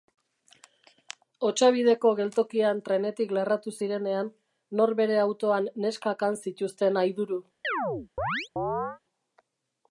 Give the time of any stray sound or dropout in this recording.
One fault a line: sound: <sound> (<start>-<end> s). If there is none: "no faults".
sound: chirp (7.6-9.0 s)